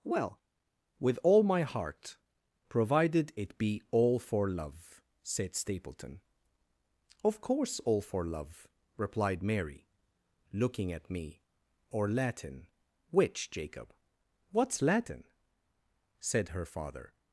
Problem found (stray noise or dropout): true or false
false